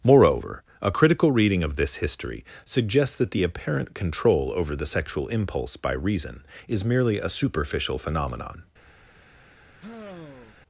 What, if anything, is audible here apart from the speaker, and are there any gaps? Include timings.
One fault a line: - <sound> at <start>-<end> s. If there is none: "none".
- sigh at 9.8-10.5 s